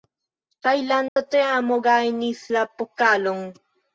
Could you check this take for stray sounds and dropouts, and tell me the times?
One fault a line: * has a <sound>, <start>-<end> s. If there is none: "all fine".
* has a dropout, 1.1-1.2 s